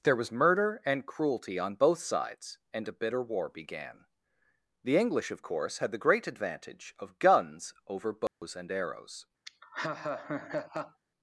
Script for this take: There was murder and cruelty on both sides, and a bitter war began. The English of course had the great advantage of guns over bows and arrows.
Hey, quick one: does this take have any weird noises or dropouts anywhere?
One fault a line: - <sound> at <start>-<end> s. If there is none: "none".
- dropout at 8.3-8.4 s
- laugh at 9.5-11.0 s